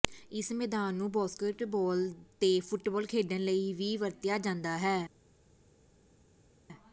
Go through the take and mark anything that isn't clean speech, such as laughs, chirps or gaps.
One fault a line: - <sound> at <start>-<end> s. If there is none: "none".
none